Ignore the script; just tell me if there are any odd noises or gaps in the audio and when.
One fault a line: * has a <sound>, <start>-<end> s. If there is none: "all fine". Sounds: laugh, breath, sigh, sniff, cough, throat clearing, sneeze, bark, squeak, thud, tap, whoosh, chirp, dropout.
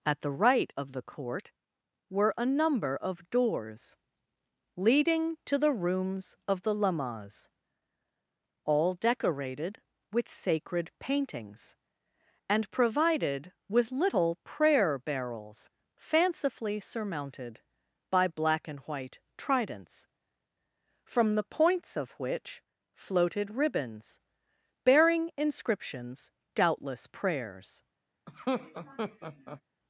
* has a laugh, 28.3-29.6 s